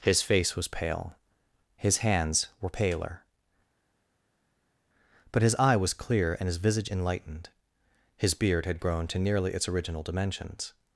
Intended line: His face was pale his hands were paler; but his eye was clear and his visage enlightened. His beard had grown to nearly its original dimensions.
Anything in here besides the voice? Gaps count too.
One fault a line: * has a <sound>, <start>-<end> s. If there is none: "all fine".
all fine